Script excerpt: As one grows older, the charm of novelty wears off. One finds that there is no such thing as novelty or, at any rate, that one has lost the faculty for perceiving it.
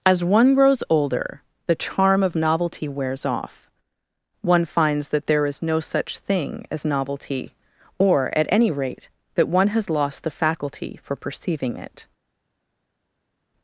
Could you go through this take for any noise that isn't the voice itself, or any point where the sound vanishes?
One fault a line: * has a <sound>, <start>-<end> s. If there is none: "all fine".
all fine